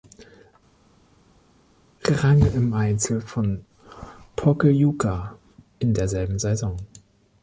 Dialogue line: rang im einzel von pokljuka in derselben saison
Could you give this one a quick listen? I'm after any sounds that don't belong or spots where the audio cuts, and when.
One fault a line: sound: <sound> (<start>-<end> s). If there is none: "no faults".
no faults